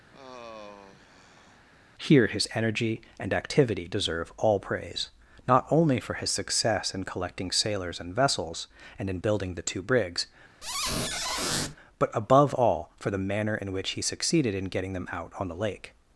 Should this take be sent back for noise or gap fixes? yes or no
yes